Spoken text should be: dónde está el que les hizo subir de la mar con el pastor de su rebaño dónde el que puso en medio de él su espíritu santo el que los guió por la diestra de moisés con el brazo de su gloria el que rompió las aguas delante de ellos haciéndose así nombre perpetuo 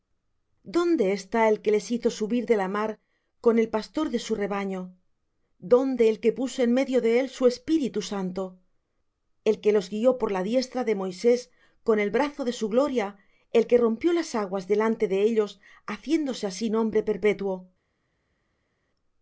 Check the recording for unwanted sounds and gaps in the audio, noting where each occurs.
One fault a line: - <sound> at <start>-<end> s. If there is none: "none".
none